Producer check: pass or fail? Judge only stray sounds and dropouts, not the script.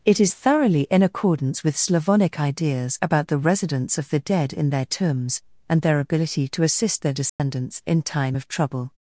fail